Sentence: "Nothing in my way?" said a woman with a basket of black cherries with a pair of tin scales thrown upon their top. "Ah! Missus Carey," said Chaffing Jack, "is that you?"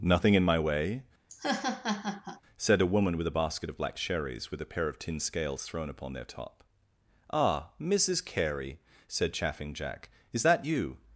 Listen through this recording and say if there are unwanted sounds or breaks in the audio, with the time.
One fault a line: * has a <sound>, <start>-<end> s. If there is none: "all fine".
* has a laugh, 1.3-2.4 s